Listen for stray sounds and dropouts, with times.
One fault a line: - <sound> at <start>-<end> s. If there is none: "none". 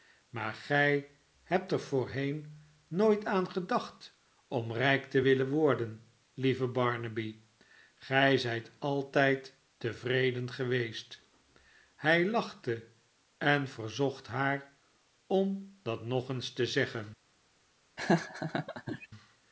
- laugh at 18.0-19.1 s